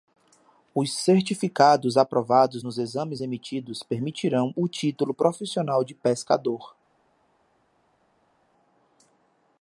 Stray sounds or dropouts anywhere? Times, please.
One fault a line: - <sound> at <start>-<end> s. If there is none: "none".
none